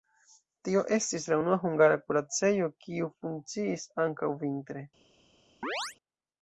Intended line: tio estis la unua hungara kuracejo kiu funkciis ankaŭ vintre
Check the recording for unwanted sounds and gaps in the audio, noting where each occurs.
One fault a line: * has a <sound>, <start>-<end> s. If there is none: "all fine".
* has a chirp, 5.6-6.0 s